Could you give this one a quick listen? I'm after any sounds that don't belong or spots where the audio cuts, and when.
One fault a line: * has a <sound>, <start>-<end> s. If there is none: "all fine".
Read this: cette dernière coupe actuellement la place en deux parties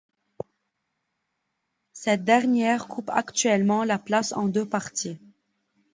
all fine